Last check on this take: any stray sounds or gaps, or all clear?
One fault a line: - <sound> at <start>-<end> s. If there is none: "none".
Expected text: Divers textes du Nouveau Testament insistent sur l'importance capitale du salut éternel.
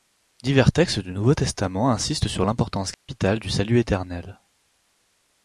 - dropout at 2.9-3.1 s